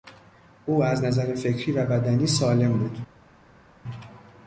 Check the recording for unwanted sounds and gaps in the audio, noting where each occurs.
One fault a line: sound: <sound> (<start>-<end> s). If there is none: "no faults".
no faults